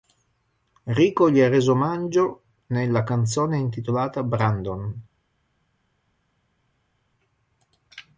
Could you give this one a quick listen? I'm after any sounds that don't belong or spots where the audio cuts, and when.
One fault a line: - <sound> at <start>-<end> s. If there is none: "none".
none